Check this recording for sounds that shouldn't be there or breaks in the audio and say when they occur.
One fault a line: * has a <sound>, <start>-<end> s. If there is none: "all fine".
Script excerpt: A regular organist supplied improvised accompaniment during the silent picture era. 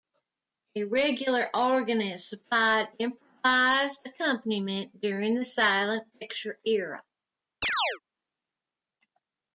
* has a chirp, 7.6-8.0 s